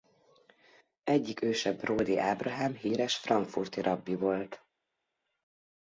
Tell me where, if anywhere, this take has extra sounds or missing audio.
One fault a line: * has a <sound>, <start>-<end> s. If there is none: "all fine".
all fine